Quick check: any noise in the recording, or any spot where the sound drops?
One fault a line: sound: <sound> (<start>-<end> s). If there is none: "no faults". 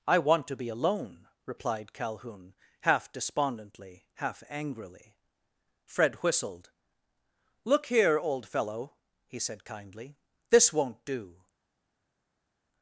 no faults